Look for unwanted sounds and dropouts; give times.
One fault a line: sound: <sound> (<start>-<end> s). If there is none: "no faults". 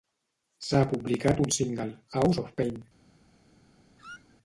sound: squeak (4.0-4.4 s)